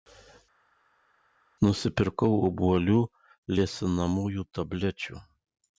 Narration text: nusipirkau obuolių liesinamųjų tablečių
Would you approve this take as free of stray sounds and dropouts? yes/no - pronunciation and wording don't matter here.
yes